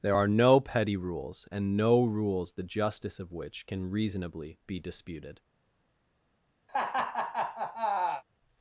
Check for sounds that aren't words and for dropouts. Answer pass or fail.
fail